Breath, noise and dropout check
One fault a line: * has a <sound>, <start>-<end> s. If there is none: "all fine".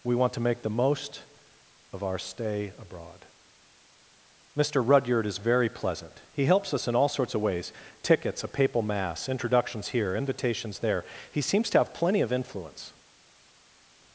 all fine